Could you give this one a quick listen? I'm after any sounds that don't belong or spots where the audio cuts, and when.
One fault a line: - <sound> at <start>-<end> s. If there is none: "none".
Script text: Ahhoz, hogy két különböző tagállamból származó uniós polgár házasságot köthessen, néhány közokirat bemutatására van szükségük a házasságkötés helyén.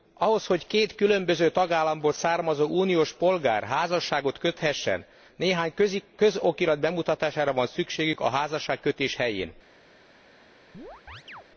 - chirp at 10.7-11.5 s